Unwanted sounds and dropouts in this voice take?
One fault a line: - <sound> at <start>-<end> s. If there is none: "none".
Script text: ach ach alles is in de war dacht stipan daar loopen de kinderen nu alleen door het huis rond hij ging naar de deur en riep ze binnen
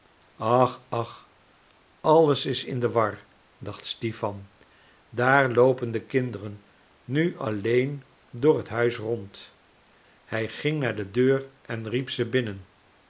none